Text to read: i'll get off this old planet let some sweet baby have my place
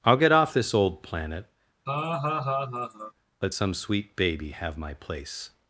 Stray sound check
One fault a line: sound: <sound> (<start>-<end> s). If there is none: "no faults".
sound: laugh (1.9-3.1 s)